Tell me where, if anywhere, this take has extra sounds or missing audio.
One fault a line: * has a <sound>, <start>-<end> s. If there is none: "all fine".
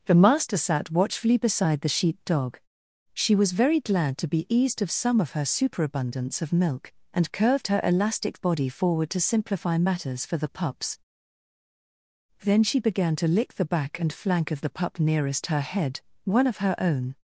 all fine